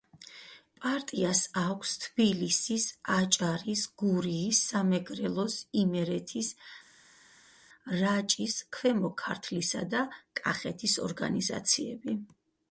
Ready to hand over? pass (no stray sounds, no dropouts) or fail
pass